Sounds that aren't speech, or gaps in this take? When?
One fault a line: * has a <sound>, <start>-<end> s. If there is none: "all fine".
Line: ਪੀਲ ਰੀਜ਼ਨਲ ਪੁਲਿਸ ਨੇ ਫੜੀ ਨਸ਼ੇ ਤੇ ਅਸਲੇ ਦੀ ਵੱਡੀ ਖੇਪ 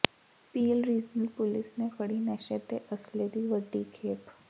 all fine